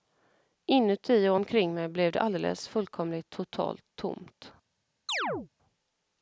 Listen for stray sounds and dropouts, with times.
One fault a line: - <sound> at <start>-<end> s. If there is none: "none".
- chirp at 5.1-5.5 s